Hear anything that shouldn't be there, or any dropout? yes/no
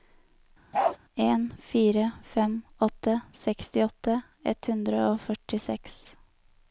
yes